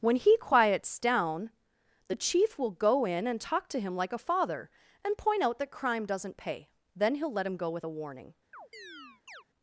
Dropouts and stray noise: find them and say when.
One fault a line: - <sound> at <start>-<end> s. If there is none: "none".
- chirp at 8.5-9.4 s